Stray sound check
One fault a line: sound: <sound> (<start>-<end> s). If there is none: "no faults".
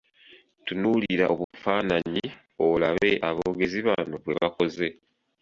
sound: dropout (1.4-1.5 s)